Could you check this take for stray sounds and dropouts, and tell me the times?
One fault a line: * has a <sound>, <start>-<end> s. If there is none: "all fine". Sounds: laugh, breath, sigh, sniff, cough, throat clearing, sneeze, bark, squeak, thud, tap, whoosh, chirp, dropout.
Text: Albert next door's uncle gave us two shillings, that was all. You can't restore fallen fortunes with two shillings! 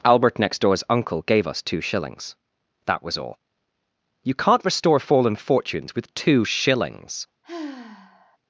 * has a sigh, 7.4-8.4 s